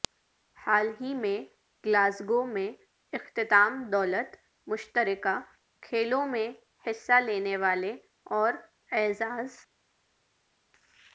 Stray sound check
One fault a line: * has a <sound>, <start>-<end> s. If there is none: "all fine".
all fine